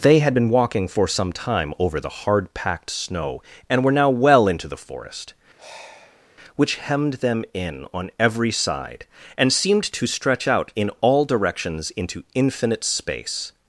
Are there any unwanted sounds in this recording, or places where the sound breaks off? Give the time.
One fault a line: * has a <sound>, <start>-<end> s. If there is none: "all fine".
* has a sigh, 5.6-6.3 s